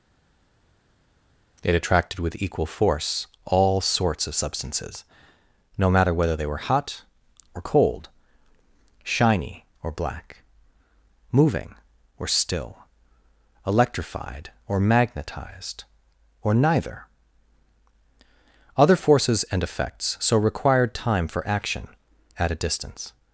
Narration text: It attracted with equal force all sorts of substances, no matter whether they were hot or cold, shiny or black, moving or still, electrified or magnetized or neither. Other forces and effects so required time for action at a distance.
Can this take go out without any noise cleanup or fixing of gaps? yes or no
yes